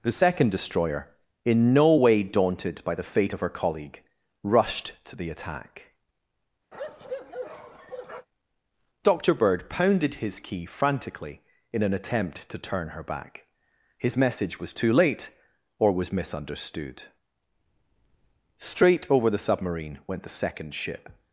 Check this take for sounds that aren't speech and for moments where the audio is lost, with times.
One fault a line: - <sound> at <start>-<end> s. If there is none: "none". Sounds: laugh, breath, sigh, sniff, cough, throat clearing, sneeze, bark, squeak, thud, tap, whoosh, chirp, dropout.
- bark at 6.7-8.3 s